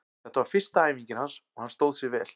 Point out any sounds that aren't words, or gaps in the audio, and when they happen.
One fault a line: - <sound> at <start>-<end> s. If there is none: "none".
none